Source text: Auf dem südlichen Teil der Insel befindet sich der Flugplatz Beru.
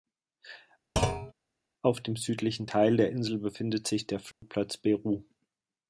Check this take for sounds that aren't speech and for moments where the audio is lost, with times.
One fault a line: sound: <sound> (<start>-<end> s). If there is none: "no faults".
sound: thud (1.0-1.3 s)
sound: dropout (4.3-4.4 s)